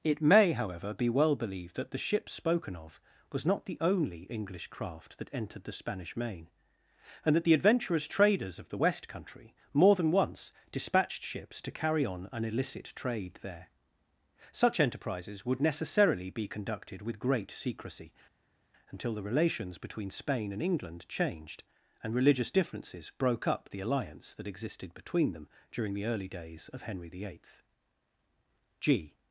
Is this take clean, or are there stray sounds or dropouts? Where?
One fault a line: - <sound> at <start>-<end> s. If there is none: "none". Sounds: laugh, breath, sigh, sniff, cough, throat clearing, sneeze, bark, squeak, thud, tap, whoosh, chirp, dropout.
none